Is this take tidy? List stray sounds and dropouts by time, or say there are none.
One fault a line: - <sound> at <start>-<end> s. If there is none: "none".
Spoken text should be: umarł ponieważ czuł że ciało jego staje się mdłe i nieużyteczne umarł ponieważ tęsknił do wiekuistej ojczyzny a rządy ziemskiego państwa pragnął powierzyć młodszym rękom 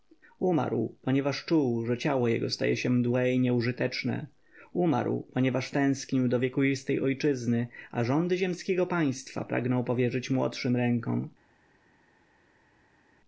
none